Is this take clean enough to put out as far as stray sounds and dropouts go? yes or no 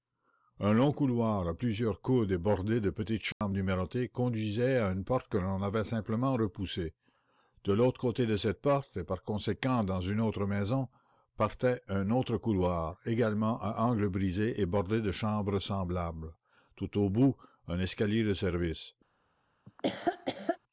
no